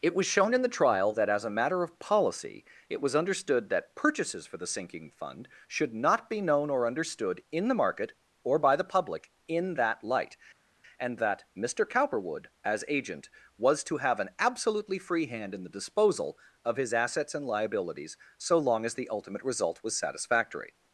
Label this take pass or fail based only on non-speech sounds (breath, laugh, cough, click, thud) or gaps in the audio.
pass